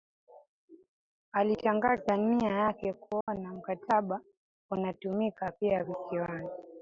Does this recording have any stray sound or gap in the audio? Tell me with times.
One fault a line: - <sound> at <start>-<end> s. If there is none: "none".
- dropout at 3.2-3.3 s